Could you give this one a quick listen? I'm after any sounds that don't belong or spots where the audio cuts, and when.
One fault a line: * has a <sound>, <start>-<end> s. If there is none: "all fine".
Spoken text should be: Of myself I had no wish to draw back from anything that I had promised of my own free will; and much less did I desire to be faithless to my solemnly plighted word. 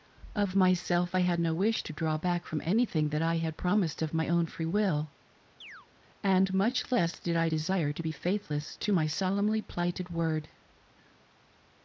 * has a chirp, 5.6-5.9 s